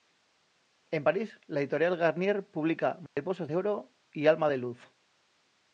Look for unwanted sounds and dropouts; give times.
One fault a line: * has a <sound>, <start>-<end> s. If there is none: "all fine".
* has a dropout, 3.1-3.2 s